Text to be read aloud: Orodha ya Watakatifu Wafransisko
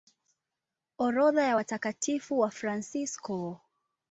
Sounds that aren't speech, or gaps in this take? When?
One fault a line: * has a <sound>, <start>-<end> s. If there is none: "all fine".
all fine